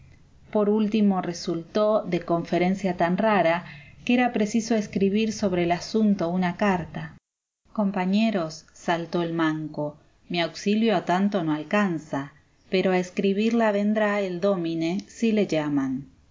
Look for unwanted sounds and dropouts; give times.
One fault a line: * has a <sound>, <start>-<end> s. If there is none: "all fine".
all fine